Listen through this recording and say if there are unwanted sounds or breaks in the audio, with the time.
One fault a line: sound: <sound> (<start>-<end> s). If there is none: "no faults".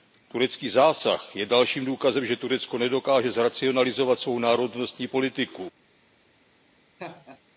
sound: laugh (7.0-7.4 s)